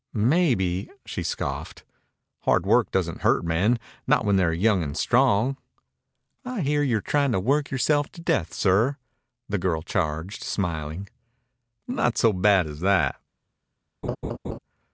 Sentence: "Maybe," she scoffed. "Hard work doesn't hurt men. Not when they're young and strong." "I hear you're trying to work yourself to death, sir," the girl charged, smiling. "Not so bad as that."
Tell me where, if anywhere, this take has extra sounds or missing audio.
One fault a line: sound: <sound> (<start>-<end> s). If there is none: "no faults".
sound: laugh (14.0-14.6 s)